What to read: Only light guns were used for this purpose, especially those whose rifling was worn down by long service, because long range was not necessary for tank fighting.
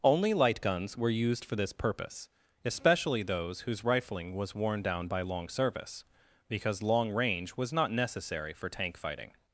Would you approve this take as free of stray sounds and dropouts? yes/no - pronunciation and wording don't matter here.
yes